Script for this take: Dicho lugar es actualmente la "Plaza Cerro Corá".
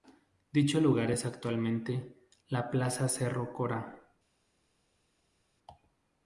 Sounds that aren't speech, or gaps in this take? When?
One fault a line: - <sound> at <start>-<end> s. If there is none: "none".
none